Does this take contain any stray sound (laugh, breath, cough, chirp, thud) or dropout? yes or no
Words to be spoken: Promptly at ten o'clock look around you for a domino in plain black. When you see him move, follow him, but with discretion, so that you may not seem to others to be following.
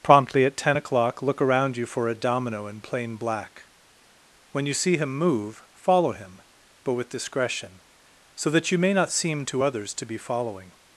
no